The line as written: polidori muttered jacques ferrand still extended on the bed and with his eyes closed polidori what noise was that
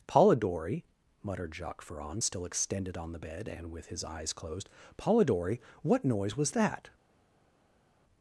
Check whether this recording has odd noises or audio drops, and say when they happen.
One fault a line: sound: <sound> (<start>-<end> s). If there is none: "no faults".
no faults